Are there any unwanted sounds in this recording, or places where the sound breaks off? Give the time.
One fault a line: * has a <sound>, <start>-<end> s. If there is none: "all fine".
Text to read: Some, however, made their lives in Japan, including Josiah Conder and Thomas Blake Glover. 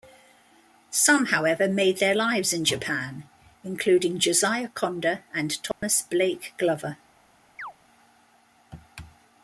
* has a dropout, 5.7-5.8 s
* has a chirp, 7.6-7.7 s